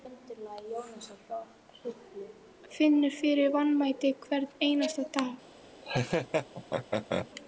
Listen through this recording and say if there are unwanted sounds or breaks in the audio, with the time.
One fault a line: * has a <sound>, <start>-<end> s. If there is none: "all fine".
* has a laugh, 5.8-7.3 s